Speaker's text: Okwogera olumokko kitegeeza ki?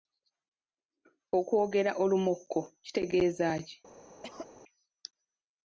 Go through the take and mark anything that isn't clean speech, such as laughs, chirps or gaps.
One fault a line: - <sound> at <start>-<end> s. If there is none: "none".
- cough at 4.2-4.5 s